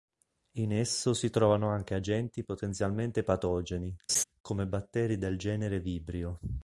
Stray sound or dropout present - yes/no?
yes